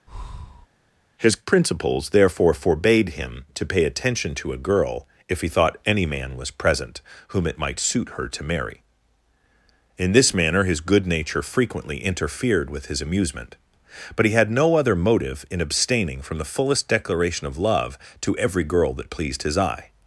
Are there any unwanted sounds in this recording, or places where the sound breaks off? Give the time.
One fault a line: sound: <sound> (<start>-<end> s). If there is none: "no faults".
sound: breath (0.1-0.7 s)